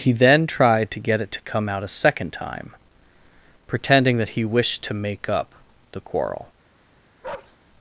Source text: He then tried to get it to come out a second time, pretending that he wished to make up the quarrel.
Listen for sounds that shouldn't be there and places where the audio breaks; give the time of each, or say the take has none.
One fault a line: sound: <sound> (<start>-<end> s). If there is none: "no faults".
sound: bark (7.2-7.6 s)